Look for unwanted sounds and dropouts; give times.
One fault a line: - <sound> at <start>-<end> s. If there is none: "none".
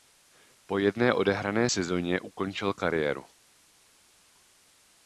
none